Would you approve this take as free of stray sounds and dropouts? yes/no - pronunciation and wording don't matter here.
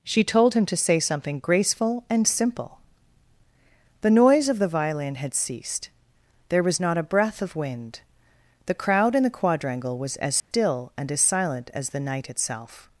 no